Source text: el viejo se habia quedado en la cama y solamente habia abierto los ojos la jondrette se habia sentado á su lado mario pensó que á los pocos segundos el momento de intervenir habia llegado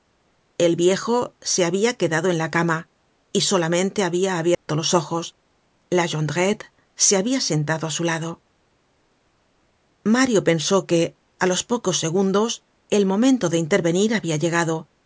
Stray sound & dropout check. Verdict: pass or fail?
fail